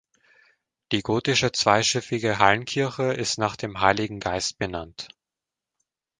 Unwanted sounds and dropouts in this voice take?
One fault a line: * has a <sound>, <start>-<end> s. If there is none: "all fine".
all fine